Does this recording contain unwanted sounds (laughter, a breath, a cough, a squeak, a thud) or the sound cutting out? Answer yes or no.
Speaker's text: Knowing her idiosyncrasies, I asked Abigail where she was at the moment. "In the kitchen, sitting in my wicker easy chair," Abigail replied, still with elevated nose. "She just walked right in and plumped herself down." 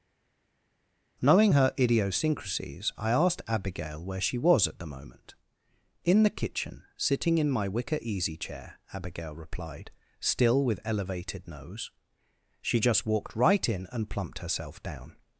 no